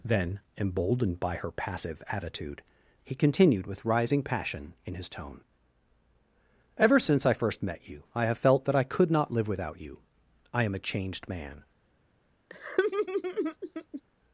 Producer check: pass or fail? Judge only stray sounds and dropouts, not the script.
fail